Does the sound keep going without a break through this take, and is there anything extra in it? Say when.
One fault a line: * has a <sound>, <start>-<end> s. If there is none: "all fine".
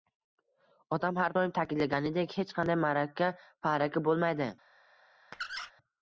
* has a squeak, 5.3-5.7 s